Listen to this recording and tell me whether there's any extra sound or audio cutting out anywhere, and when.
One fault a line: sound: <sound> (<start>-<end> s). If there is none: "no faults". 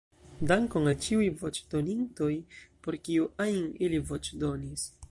no faults